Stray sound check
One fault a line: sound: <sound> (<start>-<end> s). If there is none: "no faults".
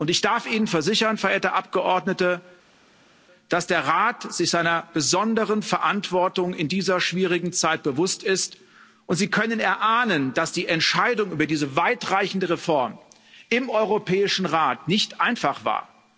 no faults